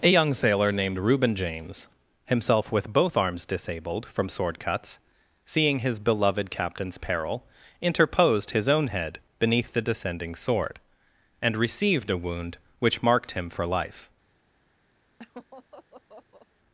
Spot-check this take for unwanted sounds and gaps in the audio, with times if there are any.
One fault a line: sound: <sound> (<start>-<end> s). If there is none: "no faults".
sound: laugh (15.2-16.5 s)